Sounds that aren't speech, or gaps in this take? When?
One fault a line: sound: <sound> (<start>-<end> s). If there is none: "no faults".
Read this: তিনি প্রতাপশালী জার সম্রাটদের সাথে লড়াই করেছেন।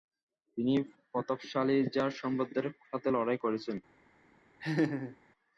sound: laugh (4.6-5.2 s)